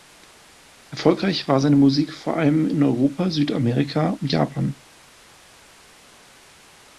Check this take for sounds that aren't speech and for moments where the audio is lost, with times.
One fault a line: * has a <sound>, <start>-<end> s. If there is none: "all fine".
all fine